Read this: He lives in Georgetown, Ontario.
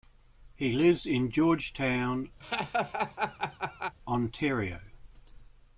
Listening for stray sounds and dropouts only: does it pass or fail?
fail